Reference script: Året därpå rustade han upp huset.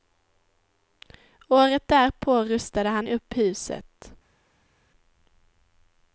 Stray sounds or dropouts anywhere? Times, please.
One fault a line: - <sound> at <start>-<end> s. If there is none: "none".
none